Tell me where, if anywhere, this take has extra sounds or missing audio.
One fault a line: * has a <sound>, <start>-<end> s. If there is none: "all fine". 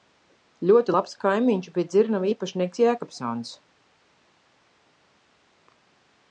all fine